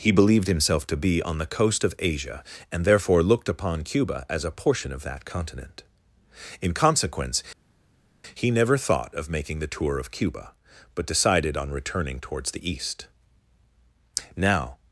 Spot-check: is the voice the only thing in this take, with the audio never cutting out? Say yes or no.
yes